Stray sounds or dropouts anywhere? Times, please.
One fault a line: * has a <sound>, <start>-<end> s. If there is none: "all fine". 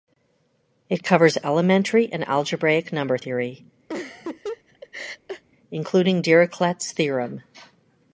* has a laugh, 3.9-5.4 s